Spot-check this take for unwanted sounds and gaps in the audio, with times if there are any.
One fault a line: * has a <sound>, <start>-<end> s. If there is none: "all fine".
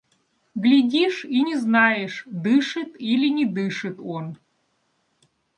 all fine